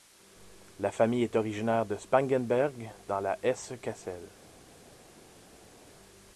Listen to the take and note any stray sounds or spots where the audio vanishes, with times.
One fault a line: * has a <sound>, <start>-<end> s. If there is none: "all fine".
all fine